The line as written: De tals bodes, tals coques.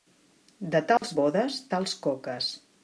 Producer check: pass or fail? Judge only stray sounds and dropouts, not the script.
fail